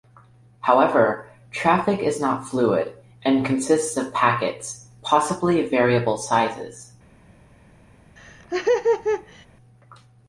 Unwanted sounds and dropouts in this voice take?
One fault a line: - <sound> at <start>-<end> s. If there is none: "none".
- laugh at 8.2-9.5 s